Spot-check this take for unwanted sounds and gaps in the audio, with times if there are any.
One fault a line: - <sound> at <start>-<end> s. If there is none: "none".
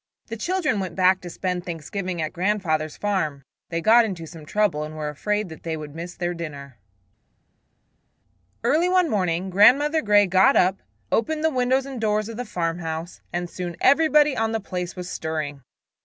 none